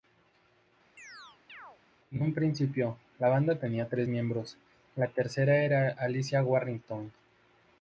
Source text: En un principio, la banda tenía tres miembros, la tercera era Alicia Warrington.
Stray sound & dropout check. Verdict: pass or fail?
fail